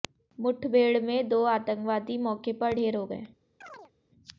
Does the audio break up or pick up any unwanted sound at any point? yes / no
yes